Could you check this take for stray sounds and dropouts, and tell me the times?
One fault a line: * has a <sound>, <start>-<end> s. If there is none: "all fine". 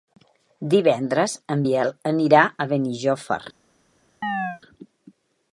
* has a chirp, 4.2-4.6 s